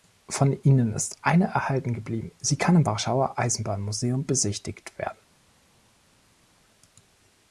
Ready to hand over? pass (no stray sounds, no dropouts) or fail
pass